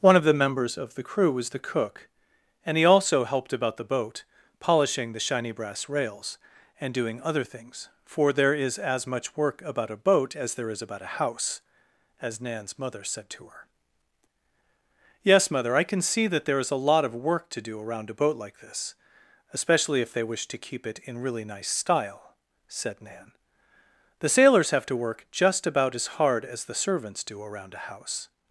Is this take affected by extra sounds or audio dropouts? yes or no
no